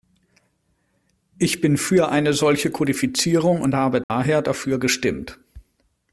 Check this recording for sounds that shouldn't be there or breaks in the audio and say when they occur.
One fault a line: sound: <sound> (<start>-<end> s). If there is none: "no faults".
sound: dropout (4.0-4.1 s)